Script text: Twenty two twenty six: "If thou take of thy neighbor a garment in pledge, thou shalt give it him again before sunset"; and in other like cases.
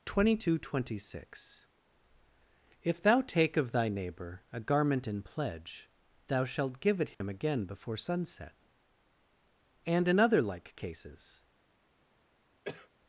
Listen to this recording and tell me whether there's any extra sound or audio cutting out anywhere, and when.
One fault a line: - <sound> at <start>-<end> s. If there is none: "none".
- dropout at 7.1-7.2 s
- cough at 12.6-12.9 s